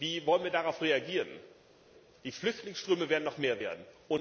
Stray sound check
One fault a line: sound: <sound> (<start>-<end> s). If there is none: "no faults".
no faults